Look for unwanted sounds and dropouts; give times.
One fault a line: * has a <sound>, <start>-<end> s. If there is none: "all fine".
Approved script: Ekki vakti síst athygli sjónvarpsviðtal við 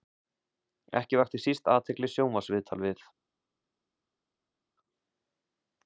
all fine